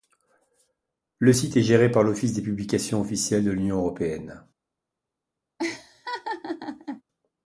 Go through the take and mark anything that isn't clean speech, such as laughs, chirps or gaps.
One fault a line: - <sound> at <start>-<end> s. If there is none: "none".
- laugh at 5.6-7.0 s